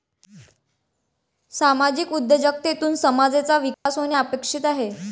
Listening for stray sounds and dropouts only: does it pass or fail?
fail